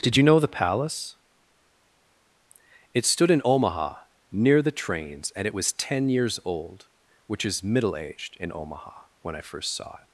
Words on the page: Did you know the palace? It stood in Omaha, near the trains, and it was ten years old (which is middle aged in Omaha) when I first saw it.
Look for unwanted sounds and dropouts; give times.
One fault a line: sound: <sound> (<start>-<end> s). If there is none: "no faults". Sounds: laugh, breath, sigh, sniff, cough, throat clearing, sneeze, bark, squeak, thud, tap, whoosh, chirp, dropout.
no faults